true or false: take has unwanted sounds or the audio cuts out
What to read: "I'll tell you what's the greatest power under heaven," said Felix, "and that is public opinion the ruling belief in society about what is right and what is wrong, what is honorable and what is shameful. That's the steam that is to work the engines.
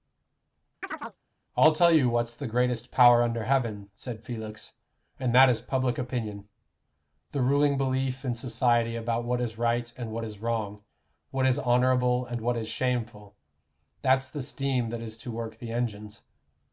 true